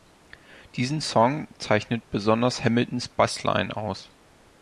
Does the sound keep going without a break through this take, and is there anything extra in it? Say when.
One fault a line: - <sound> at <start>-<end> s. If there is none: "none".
none